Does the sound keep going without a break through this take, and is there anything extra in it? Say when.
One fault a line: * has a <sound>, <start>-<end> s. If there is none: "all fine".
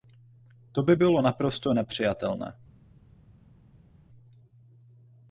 all fine